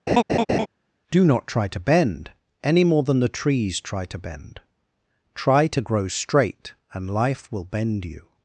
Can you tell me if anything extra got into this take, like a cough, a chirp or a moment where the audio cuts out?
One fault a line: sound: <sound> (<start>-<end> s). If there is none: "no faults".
sound: laugh (0.1-0.7 s)